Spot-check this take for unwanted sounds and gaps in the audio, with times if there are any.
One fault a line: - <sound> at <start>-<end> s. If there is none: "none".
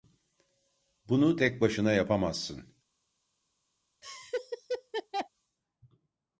- laugh at 4.0-5.3 s